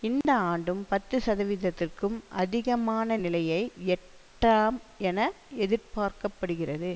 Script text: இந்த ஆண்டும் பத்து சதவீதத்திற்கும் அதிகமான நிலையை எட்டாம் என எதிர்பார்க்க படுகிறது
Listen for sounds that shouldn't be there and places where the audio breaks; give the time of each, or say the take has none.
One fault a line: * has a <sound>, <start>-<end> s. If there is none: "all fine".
* has a dropout, 0.2-0.2 s